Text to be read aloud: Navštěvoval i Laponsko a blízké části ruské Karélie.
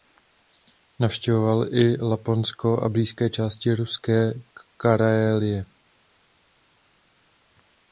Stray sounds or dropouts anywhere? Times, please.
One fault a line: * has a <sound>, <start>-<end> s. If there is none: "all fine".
all fine